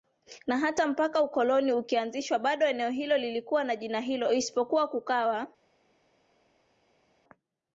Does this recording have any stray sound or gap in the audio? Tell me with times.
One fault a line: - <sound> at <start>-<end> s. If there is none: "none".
none